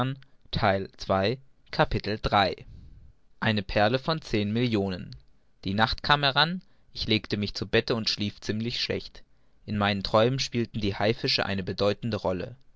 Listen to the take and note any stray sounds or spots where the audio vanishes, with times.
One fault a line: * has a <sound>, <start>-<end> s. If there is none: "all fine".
all fine